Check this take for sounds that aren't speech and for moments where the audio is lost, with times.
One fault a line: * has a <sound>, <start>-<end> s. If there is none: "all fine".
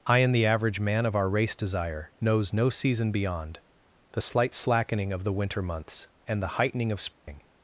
* has a dropout, 7.1-7.3 s